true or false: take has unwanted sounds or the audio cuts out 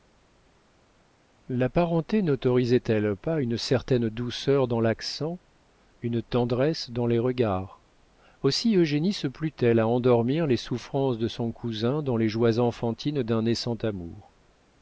false